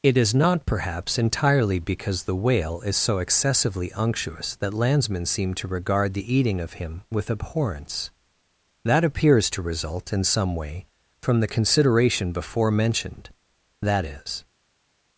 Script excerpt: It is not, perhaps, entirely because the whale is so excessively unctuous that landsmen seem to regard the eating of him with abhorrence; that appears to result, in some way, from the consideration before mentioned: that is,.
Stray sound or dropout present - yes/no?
no